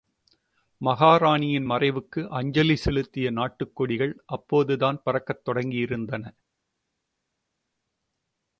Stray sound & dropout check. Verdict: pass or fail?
pass